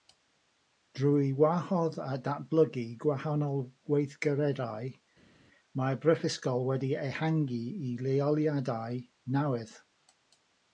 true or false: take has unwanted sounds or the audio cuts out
false